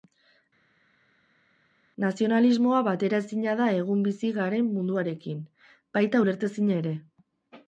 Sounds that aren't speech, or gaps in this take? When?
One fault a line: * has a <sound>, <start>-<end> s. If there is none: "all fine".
all fine